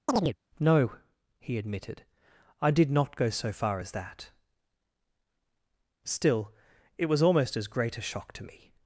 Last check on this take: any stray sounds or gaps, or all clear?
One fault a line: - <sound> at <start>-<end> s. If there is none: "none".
- chirp at 0.1-0.4 s